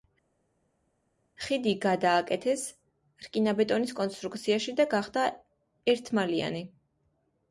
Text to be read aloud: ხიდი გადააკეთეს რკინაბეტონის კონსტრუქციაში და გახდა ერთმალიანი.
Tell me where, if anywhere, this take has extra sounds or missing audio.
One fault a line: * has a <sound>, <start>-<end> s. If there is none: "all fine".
all fine